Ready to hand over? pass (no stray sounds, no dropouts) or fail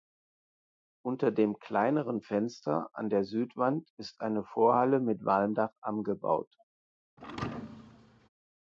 fail